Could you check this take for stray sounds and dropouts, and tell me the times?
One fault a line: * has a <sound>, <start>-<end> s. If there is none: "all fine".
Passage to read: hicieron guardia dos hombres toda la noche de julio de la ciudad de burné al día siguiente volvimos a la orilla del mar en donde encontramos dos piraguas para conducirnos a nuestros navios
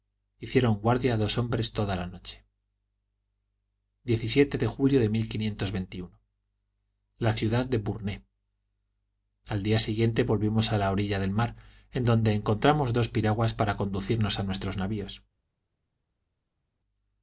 all fine